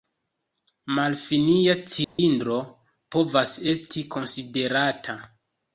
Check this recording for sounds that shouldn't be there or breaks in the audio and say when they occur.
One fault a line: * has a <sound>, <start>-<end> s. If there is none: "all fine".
* has a dropout, 2.0-2.2 s